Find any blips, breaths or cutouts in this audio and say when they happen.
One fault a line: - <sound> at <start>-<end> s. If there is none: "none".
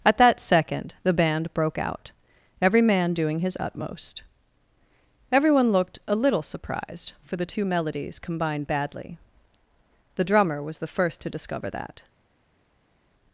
none